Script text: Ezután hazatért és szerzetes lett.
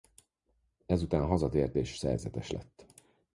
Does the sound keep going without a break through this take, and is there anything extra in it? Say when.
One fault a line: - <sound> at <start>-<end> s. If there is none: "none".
none